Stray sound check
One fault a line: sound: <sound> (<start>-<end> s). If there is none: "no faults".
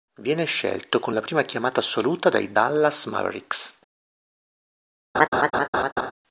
sound: laugh (5.1-6.1 s)